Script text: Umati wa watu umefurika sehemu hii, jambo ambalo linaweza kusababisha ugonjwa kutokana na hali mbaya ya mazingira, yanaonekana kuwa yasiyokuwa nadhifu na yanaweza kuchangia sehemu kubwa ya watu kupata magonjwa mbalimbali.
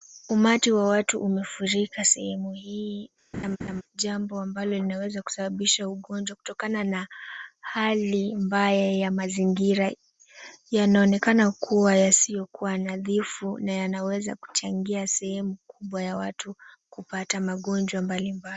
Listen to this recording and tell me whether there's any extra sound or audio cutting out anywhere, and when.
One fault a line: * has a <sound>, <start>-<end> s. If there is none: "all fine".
* has a laugh, 3.3-3.8 s